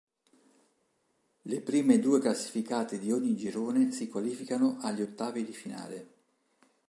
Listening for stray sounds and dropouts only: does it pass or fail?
pass